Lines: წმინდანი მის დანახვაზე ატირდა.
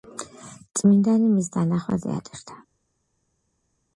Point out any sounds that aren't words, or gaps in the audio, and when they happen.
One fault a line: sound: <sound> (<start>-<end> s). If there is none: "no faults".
no faults